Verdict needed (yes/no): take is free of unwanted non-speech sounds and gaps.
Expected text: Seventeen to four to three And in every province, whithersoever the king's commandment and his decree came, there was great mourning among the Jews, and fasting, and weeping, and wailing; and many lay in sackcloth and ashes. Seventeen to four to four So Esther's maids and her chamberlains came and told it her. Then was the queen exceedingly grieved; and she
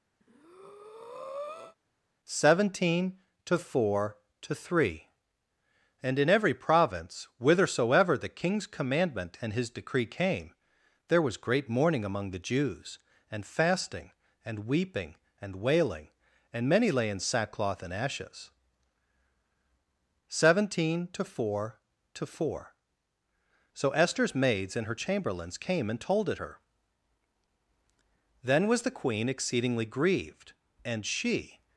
no